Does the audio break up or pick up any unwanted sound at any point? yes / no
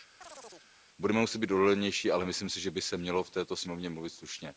yes